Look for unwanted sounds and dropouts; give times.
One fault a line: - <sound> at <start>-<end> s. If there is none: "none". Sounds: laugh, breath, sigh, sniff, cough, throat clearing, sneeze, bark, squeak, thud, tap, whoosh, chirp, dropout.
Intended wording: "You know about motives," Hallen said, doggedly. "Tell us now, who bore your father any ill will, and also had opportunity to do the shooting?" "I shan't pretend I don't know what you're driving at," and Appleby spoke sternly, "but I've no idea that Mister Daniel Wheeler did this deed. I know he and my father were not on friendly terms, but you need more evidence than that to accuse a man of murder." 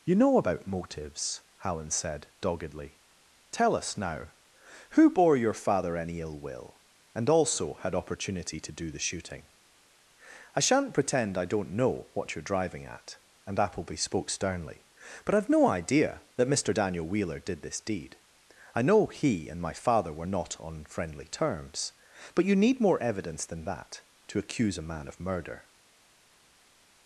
none